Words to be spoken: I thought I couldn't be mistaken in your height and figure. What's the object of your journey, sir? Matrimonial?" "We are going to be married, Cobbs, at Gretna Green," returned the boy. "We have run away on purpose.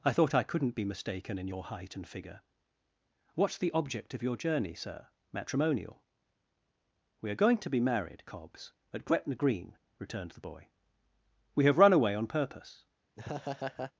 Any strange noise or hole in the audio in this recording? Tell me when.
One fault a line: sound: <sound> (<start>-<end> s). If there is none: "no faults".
sound: laugh (13.1-13.9 s)